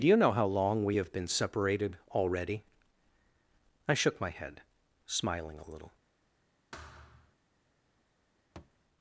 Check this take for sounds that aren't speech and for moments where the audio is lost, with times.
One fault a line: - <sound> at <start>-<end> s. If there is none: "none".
- thud at 6.7-7.4 s
- thud at 8.6-8.8 s